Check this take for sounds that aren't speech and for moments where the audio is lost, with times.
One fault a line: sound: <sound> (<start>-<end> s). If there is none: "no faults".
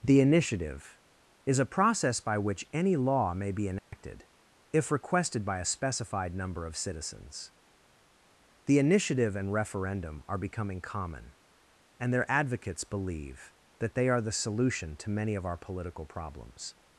sound: dropout (3.8-3.9 s)